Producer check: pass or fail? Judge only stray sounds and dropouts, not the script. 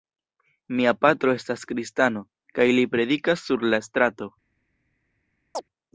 fail